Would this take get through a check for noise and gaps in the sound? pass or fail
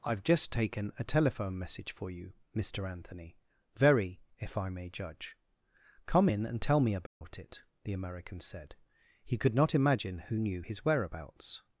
fail